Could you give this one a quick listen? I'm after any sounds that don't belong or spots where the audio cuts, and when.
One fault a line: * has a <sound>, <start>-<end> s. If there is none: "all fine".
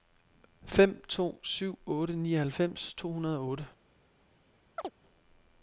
* has a chirp, 4.8-4.9 s